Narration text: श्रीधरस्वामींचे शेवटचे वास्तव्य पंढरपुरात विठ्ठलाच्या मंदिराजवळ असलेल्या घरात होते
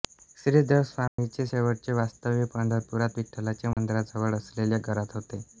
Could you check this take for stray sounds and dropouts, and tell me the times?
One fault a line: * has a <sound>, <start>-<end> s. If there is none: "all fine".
* has a dropout, 1.1-1.2 s
* has a dropout, 3.7-3.8 s